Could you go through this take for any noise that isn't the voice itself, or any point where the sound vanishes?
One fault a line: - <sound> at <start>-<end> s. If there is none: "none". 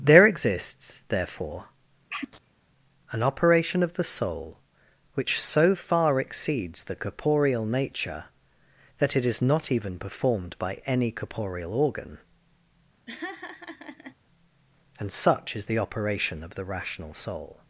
- sneeze at 2.1-2.6 s
- laugh at 13.1-14.2 s